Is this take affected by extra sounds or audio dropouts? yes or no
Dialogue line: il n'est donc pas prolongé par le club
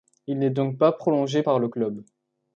no